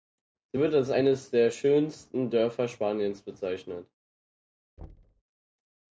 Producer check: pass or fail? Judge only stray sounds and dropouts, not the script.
fail